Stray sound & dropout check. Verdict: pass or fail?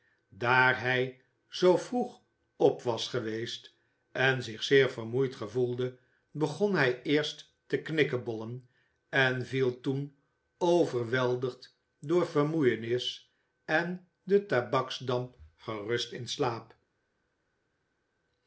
pass